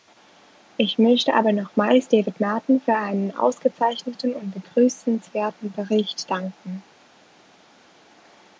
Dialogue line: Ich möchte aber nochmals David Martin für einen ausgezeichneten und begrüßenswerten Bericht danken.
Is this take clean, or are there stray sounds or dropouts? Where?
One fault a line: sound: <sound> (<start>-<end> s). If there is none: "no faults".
no faults